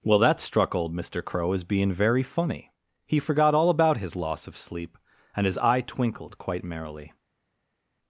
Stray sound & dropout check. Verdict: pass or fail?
pass